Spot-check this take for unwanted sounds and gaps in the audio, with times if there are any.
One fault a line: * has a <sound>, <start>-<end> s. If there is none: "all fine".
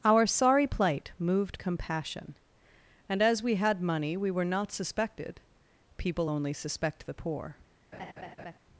* has a laugh, 7.9-8.6 s